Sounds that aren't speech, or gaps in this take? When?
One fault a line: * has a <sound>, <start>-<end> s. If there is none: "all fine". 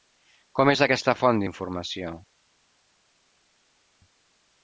all fine